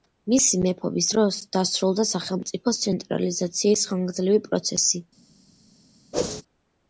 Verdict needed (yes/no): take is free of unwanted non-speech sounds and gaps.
no